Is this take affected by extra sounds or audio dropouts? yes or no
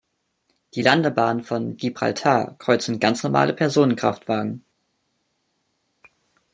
no